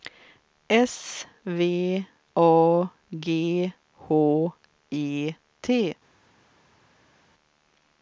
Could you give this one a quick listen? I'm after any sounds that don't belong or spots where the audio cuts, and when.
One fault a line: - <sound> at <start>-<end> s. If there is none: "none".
none